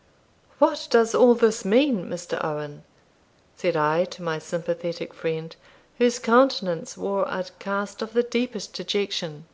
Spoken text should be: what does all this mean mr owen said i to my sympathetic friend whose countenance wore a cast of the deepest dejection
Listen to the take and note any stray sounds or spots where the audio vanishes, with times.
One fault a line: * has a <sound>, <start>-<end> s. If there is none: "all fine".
all fine